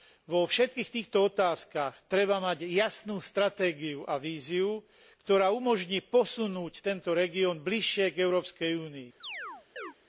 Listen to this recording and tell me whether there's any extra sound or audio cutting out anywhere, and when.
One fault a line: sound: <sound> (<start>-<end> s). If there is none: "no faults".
sound: chirp (9.2-9.9 s)